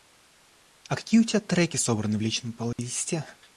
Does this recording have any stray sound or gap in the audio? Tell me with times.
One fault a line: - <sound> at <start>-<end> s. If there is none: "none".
- dropout at 2.7-2.8 s